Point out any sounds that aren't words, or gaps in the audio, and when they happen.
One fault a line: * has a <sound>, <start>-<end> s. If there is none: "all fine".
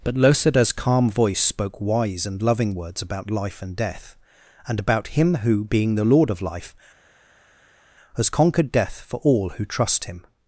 all fine